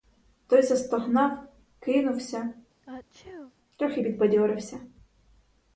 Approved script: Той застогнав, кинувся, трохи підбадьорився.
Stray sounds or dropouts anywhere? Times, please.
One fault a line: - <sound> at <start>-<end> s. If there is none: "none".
- sneeze at 2.8-3.5 s